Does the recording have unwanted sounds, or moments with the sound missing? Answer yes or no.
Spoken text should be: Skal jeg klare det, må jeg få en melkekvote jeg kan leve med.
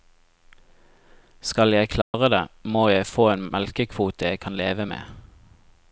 yes